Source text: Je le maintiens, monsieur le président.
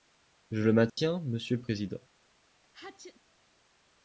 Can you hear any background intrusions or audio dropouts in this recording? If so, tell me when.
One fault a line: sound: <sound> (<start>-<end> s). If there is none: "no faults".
sound: dropout (0.9-1.0 s)
sound: sneeze (2.6-3.2 s)